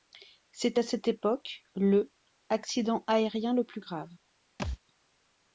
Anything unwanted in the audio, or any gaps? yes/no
yes